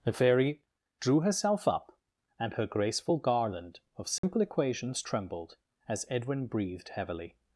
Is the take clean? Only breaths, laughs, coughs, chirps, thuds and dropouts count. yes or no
no